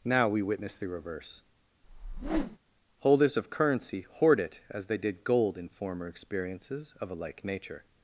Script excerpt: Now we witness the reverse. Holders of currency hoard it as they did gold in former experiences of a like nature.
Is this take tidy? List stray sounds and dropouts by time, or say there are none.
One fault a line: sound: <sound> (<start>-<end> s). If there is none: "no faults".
sound: whoosh (1.8-2.6 s)